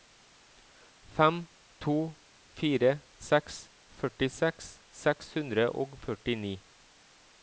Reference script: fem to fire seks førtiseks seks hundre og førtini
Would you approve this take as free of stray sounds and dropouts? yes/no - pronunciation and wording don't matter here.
yes